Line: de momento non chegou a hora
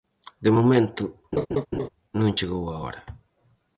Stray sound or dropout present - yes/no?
yes